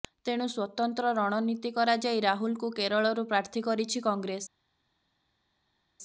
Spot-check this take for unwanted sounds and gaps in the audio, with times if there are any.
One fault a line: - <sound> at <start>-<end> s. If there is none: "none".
none